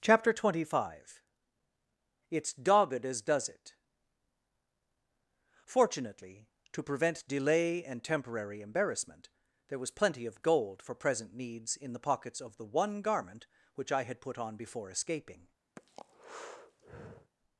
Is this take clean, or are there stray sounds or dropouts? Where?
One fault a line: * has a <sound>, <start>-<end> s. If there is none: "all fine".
* has a breath, 15.8-17.3 s